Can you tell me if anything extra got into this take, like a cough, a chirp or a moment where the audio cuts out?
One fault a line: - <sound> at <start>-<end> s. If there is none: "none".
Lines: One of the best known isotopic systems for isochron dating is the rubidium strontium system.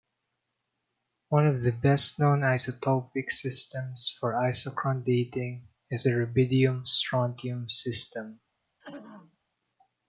- throat clearing at 8.8-9.4 s